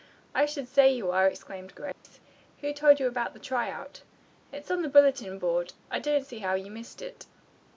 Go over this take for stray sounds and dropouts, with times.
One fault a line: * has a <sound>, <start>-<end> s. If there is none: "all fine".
* has a dropout, 1.9-2.0 s